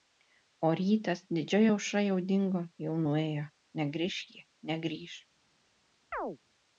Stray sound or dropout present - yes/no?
yes